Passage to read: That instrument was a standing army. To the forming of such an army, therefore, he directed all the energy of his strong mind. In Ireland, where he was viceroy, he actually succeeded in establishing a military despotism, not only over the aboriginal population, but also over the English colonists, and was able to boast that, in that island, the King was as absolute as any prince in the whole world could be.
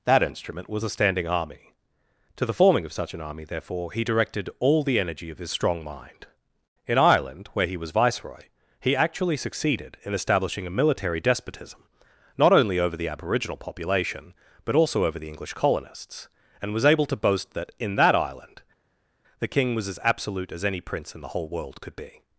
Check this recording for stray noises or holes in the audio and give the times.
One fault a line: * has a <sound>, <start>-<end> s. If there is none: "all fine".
all fine